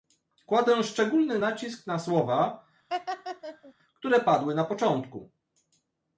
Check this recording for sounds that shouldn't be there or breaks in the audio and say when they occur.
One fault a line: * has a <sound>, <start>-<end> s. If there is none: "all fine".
* has a laugh, 2.9-3.7 s